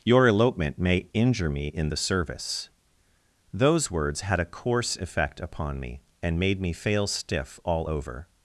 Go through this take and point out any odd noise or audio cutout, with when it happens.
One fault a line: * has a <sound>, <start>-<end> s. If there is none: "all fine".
all fine